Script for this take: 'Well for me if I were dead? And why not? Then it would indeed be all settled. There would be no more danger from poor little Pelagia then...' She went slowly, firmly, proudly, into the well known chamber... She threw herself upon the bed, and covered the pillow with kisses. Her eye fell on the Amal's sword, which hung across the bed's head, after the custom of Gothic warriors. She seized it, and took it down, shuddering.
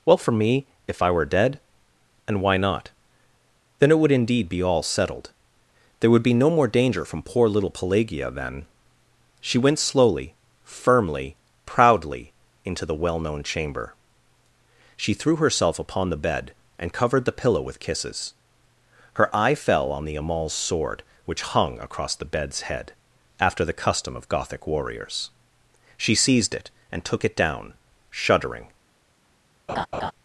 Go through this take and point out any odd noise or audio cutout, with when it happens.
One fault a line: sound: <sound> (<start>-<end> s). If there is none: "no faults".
sound: laugh (29.7-30.1 s)